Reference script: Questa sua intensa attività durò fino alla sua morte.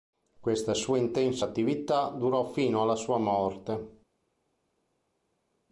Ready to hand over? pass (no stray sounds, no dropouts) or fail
pass